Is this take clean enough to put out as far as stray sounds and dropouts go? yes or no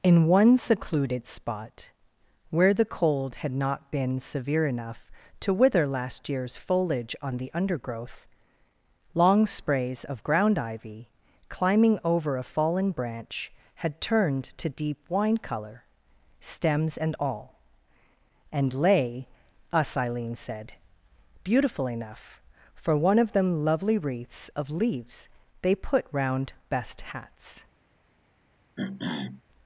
no